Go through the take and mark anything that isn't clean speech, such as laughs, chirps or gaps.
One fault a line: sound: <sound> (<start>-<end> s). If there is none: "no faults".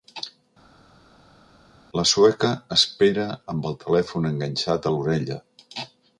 no faults